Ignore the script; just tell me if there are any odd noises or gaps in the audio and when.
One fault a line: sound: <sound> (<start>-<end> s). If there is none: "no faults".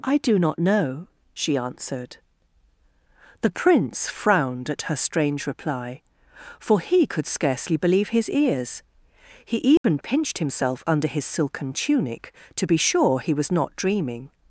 sound: dropout (9.8-9.8 s)